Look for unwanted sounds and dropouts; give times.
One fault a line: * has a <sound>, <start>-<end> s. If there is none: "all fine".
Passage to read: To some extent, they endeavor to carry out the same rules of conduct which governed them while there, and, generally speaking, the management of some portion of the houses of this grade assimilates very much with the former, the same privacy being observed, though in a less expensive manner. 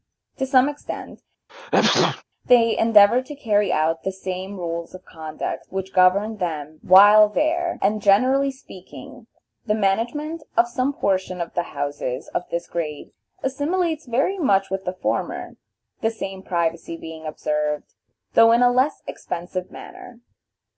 * has a sneeze, 1.5-2.2 s